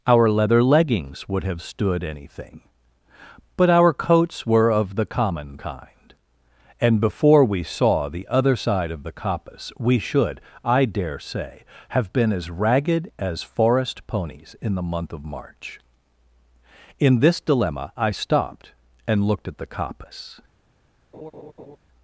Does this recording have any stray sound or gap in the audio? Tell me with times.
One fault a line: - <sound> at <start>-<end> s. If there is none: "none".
- laugh at 21.1-21.8 s